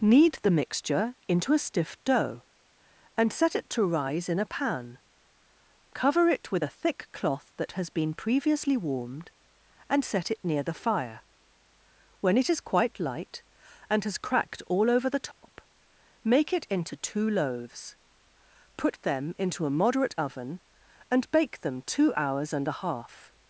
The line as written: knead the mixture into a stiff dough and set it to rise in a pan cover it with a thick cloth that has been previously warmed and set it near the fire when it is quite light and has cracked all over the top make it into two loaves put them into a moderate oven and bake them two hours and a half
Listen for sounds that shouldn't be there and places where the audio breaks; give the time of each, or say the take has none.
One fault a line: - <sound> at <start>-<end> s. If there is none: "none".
- dropout at 15.3-15.4 s